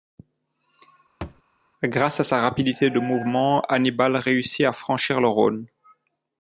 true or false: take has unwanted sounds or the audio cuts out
true